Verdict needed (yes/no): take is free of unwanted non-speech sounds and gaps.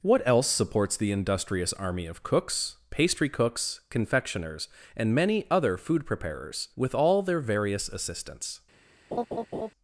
no